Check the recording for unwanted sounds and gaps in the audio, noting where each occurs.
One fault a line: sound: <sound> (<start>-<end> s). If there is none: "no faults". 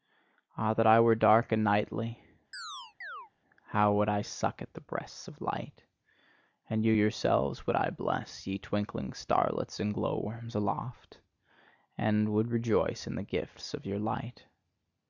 sound: chirp (2.5-3.3 s)